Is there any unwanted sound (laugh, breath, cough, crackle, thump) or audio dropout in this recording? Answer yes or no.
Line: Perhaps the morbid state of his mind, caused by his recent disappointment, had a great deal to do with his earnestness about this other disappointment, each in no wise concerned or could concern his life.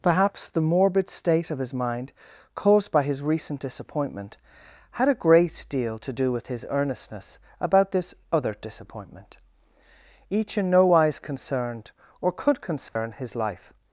yes